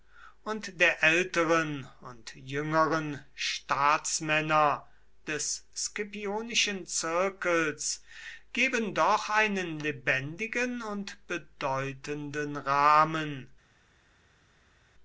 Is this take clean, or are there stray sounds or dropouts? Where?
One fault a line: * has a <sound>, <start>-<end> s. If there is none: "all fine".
all fine